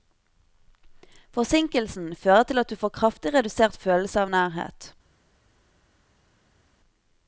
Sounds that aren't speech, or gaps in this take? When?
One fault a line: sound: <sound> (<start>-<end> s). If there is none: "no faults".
no faults